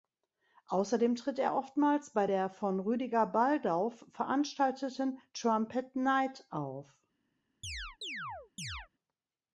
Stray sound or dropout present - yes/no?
yes